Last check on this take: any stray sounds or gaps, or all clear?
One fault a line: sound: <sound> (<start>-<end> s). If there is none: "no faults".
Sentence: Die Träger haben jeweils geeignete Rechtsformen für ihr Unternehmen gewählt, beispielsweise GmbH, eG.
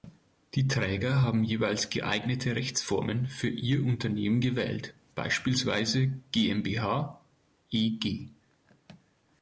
no faults